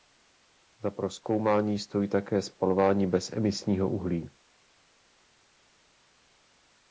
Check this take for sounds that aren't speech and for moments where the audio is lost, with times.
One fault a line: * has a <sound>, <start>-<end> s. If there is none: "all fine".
all fine